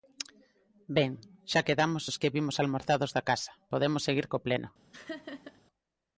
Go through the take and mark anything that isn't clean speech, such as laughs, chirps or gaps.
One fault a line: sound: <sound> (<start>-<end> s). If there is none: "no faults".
sound: laugh (4.9-5.6 s)